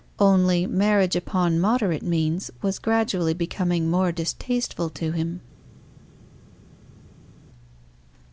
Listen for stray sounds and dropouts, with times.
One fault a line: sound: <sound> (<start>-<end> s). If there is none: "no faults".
no faults